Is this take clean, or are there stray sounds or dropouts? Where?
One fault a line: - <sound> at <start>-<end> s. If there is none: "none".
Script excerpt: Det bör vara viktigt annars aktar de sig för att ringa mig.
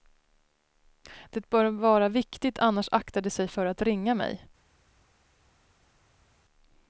none